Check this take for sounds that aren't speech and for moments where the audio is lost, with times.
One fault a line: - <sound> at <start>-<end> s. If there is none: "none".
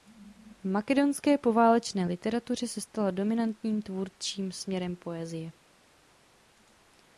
none